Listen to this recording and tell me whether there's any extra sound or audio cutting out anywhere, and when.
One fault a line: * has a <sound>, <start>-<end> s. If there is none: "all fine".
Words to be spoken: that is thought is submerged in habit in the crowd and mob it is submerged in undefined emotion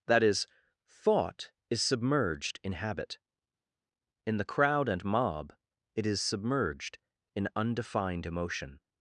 all fine